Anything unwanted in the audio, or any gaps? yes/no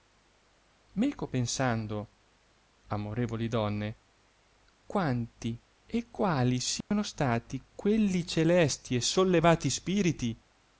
yes